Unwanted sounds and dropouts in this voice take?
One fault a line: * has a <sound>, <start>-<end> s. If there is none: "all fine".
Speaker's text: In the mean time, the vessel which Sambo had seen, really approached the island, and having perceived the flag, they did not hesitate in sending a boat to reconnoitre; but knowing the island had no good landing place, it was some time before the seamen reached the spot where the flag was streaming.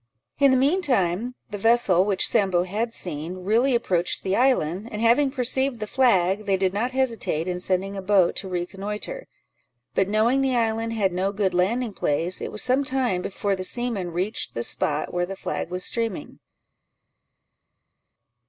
all fine